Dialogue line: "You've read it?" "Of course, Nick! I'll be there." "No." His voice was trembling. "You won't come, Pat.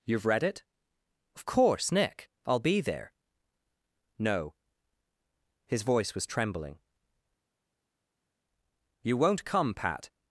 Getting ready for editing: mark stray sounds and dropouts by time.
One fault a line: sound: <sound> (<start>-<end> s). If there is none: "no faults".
no faults